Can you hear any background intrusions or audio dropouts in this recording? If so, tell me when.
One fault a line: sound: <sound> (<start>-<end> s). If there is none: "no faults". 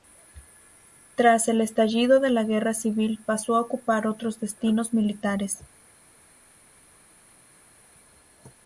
no faults